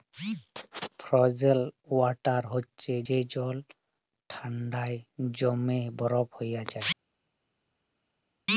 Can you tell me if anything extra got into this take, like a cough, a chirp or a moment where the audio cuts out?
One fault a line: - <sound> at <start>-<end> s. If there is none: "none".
none